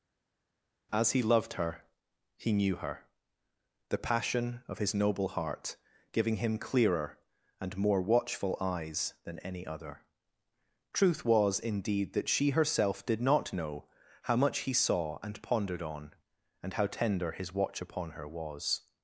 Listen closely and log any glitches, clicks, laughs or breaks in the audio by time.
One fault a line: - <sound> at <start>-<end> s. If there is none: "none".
none